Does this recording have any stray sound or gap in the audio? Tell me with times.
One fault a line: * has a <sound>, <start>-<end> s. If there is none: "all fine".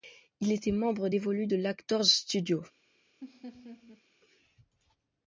* has a laugh, 3.2-4.0 s